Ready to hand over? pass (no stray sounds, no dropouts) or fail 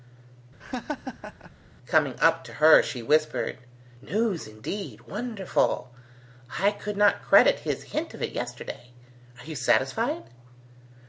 fail